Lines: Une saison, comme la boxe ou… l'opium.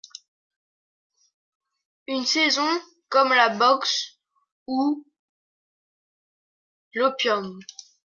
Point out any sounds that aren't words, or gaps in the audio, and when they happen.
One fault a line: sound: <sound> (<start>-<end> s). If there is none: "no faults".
no faults